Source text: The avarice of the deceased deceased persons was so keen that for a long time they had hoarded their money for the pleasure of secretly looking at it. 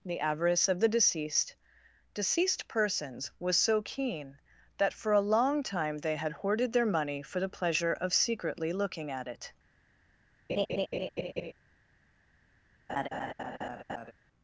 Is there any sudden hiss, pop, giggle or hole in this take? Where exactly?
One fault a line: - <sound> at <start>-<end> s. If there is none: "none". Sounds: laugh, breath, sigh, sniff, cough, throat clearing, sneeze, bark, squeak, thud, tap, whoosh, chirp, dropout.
- laugh at 10.5-11.5 s
- laugh at 12.9-14.1 s